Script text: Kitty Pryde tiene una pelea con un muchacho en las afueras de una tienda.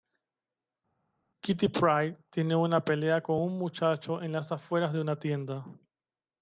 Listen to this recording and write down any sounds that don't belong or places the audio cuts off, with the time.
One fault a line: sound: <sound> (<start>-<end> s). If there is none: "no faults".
no faults